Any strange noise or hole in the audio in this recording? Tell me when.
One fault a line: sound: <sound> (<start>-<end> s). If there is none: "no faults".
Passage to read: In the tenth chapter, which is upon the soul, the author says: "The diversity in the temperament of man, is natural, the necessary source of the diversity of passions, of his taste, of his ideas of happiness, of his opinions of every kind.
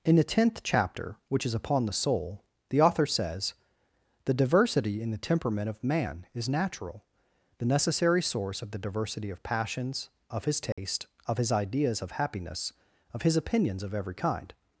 sound: dropout (10.7-10.8 s)